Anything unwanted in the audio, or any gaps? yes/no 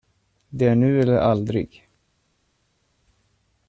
no